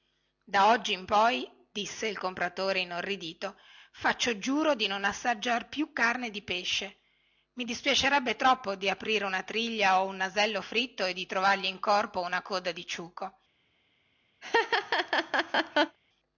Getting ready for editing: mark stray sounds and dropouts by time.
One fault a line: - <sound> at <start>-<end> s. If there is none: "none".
- laugh at 14.4-16.0 s